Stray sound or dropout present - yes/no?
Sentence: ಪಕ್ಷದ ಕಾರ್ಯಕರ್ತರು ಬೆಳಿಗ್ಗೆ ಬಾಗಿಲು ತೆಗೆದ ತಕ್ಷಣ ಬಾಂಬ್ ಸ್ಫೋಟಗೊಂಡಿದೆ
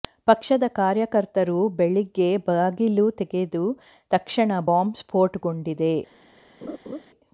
yes